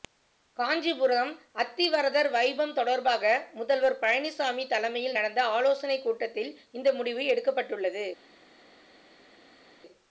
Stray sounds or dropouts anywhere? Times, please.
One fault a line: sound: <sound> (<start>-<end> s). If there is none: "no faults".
no faults